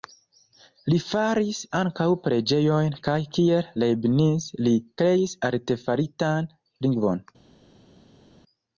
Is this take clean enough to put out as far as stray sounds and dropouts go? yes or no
yes